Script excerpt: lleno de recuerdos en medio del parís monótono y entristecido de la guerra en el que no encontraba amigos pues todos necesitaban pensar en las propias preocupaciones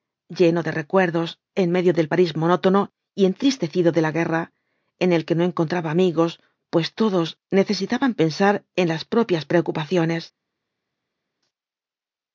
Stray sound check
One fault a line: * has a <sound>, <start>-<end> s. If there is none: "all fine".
all fine